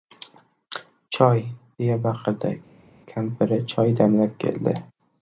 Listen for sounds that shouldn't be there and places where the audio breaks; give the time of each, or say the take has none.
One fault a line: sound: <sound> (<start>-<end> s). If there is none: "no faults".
no faults